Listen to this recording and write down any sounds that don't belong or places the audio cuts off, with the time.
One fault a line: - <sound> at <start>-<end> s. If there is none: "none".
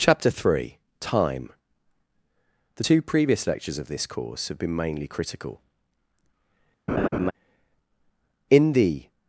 - laugh at 6.9-7.3 s